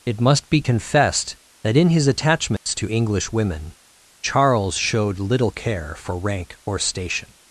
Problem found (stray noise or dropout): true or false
true